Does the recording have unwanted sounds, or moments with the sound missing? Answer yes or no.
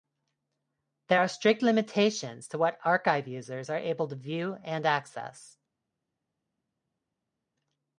no